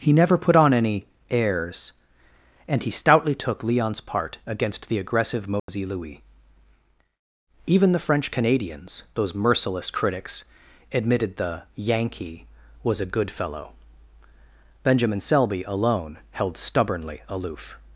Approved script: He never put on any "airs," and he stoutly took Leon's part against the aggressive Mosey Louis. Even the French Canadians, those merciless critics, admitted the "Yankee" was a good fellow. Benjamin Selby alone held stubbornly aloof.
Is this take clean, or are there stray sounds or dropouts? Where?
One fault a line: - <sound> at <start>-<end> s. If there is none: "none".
- dropout at 5.6-5.7 s